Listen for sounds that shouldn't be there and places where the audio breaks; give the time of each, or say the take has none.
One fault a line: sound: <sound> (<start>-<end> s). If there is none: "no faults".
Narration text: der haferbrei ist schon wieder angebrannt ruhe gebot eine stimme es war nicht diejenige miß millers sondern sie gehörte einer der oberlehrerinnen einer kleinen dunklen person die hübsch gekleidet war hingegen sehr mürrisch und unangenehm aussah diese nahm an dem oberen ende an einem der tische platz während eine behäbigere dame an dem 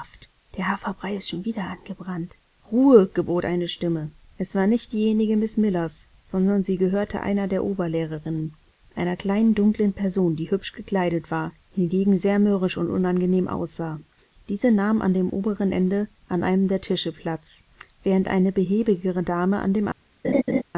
sound: laugh (20.2-20.6 s)